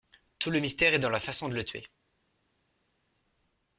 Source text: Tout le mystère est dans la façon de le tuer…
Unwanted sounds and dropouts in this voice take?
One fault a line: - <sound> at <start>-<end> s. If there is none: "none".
none